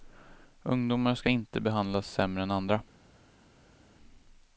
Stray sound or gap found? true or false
false